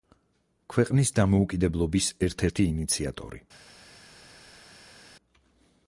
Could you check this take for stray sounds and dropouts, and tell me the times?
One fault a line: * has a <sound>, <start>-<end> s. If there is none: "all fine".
all fine